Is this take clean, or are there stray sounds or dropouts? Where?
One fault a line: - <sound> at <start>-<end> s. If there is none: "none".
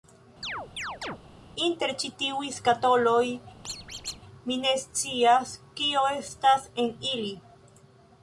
- chirp at 0.4-1.2 s
- squeak at 3.6-4.2 s